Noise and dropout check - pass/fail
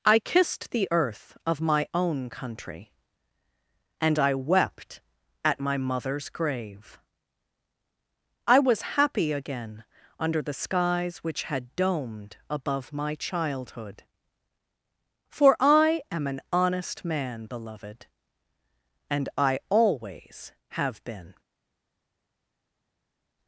pass